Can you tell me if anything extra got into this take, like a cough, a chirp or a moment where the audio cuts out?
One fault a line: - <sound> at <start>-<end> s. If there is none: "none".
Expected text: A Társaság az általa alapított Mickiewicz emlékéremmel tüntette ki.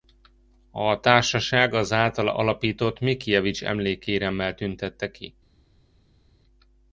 none